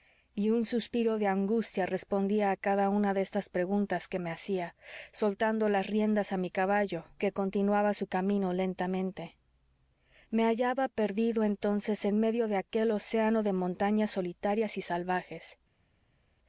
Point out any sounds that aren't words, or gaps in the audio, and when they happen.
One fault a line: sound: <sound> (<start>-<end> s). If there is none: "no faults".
no faults